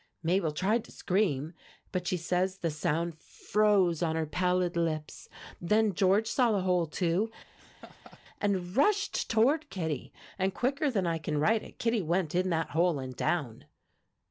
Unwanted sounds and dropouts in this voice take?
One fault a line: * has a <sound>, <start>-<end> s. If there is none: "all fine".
* has a laugh, 7.6-8.2 s